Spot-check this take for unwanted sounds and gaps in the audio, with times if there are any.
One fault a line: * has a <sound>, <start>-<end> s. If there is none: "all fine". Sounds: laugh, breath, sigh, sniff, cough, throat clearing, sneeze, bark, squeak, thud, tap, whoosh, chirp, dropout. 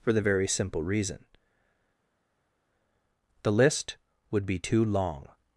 all fine